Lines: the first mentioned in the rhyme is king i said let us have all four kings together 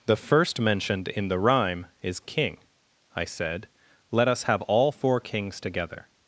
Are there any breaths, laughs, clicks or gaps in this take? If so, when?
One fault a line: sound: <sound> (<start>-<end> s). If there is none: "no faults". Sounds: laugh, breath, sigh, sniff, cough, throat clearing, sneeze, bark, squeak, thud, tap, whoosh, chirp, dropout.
no faults